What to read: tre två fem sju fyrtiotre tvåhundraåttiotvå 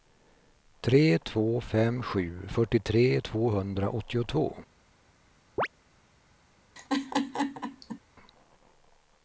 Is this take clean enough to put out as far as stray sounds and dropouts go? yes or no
no